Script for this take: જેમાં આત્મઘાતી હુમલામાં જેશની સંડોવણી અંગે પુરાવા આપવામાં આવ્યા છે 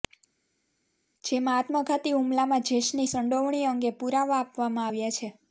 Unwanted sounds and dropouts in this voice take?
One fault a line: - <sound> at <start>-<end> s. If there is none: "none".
none